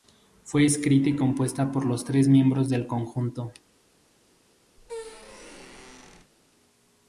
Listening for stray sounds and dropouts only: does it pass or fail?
fail